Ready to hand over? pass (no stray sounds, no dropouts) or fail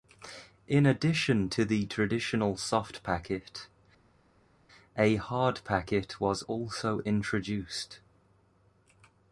pass